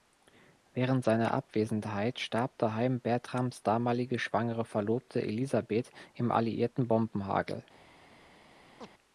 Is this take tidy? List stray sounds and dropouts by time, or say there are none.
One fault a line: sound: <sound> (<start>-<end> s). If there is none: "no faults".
sound: chirp (8.8-8.9 s)